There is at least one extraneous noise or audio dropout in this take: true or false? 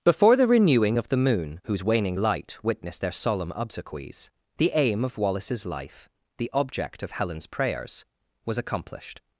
false